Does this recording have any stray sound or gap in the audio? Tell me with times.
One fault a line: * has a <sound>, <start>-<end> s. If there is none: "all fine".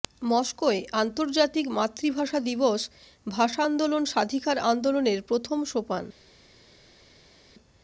all fine